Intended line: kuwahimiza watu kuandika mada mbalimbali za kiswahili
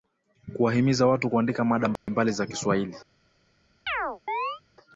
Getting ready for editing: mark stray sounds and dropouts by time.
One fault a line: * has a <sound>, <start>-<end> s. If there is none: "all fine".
* has a dropout, 2.0-2.1 s
* has a chirp, 3.9-4.6 s